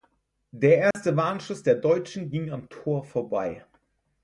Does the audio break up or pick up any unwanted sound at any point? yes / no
yes